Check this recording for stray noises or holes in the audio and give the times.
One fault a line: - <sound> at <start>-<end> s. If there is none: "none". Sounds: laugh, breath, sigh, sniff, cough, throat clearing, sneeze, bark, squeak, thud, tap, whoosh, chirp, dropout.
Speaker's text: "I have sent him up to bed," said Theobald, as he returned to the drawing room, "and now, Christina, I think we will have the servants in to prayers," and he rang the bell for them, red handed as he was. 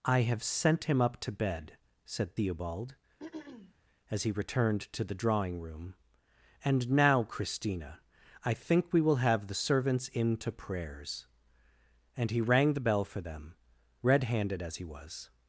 - throat clearing at 3.2-3.7 s